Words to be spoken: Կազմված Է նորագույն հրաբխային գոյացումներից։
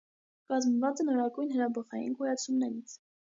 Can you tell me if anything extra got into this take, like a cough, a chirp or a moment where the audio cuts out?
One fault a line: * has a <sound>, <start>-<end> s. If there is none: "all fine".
all fine